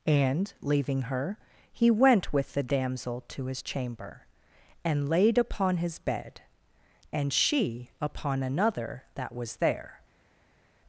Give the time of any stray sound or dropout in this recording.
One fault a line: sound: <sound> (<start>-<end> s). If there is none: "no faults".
no faults